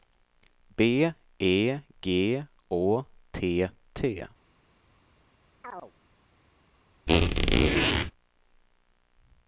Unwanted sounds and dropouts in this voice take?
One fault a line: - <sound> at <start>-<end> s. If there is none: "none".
- chirp at 5.6-5.9 s
- squeak at 7.1-8.1 s